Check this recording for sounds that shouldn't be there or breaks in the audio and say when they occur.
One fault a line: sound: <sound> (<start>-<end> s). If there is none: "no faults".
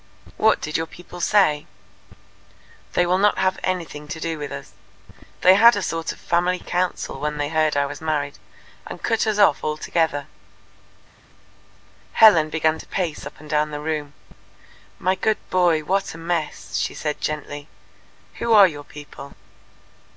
no faults